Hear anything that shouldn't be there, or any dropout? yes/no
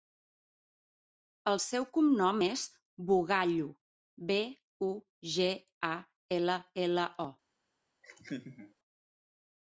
yes